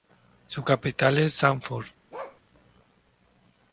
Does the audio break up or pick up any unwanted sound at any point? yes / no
yes